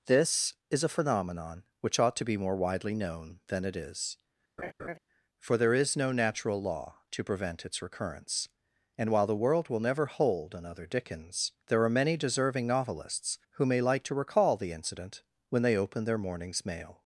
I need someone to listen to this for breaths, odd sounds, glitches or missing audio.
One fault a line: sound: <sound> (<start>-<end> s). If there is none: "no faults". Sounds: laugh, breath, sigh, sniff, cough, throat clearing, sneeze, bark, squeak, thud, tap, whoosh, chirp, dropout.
sound: laugh (4.6-5.0 s)